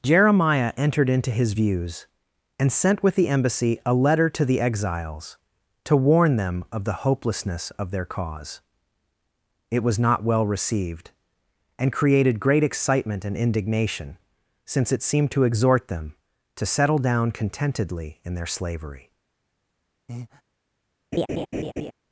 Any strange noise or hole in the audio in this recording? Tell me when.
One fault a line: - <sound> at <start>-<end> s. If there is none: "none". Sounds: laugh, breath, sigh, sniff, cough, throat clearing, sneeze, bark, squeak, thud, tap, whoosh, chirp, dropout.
- breath at 20.1-20.4 s
- laugh at 21.1-21.9 s